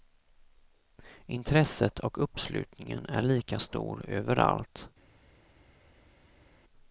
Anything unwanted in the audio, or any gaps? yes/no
no